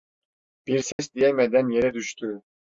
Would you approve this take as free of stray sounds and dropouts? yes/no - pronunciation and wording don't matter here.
no